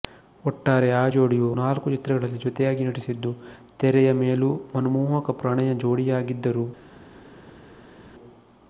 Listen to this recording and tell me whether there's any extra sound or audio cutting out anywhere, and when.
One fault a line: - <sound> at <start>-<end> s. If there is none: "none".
none